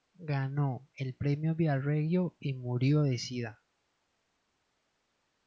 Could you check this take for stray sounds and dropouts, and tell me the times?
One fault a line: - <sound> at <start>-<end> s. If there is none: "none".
none